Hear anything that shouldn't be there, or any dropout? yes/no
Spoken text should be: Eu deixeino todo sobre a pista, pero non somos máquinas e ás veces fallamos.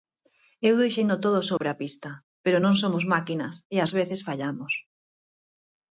yes